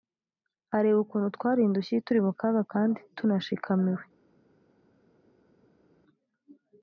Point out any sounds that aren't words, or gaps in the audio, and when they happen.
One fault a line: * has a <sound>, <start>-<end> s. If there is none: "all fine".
all fine